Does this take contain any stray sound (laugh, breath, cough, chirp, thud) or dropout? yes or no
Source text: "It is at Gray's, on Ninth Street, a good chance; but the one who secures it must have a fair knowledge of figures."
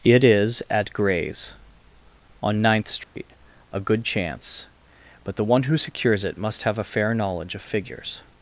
yes